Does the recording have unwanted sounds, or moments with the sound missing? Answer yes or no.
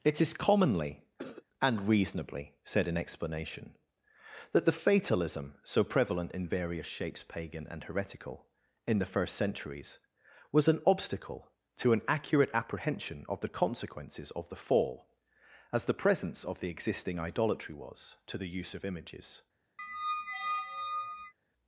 yes